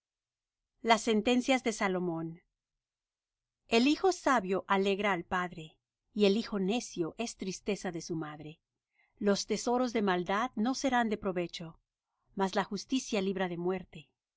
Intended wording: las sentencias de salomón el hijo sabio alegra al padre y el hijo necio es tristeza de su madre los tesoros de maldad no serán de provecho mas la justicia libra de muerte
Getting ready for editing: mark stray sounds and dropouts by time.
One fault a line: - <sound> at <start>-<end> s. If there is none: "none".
none